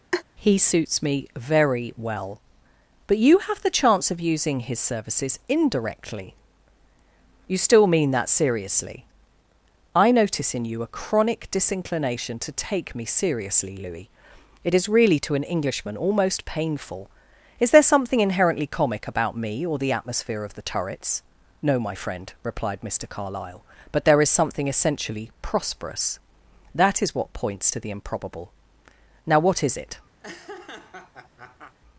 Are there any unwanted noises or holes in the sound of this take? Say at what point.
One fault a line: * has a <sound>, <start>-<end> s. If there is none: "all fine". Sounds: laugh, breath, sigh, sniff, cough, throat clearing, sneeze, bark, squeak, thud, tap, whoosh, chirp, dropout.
* has a laugh, 0.1-0.2 s
* has a laugh, 30.2-31.8 s